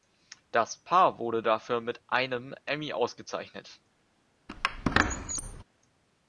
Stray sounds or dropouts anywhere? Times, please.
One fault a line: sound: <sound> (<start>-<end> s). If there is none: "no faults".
sound: squeak (4.5-5.6 s)